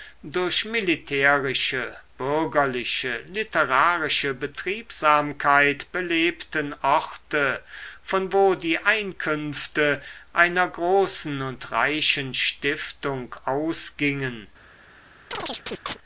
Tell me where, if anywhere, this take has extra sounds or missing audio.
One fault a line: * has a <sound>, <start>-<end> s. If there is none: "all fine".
* has a chirp, 15.3-16.0 s